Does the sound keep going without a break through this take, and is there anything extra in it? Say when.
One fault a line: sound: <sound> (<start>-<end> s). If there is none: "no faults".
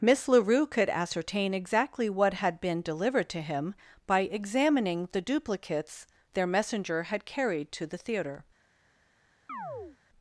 sound: chirp (9.5-10.0 s)